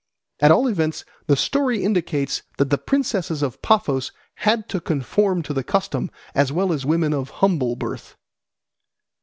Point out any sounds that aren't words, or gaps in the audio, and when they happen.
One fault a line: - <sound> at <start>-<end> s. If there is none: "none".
none